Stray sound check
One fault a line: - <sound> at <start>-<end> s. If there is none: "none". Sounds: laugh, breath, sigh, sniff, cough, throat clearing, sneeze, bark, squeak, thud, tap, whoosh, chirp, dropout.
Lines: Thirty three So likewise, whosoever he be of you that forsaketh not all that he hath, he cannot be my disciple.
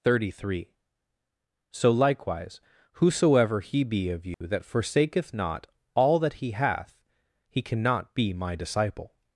- dropout at 4.3-4.4 s